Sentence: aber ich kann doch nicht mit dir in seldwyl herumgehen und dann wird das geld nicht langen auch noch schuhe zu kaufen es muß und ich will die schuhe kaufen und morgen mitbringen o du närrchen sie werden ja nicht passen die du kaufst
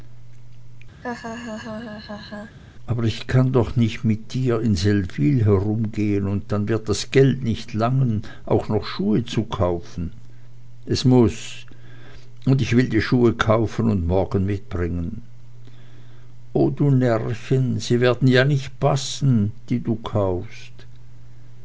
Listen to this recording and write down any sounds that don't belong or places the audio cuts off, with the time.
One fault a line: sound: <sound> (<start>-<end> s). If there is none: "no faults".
sound: laugh (1.0-2.6 s)